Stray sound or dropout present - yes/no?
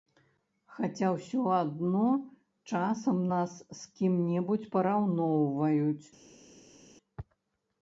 no